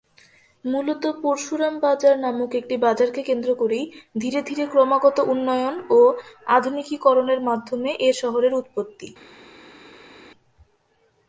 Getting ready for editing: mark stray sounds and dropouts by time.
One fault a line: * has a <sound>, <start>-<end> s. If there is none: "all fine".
all fine